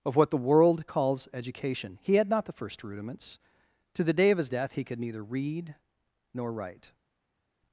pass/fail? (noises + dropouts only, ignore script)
pass